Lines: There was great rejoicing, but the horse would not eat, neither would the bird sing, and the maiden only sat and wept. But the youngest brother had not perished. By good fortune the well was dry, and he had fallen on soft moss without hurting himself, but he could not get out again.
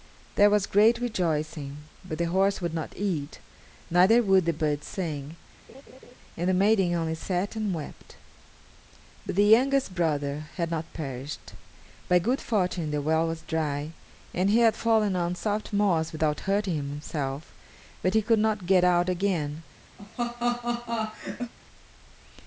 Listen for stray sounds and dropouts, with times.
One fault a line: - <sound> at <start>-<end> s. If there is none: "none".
- laugh at 5.7-6.1 s
- laugh at 20.0-21.5 s